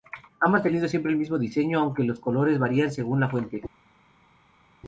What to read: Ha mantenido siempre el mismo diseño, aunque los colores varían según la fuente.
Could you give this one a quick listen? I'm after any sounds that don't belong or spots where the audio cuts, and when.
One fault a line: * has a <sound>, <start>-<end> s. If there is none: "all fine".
all fine